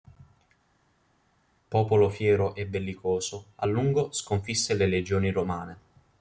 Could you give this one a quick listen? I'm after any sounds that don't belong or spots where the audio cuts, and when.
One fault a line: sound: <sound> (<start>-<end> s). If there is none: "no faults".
no faults